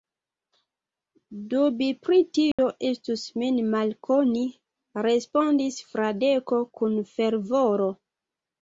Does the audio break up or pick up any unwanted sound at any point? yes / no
yes